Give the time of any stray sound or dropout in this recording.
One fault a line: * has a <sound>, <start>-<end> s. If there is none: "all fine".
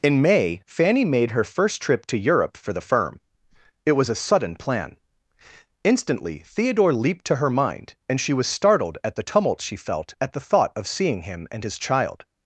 all fine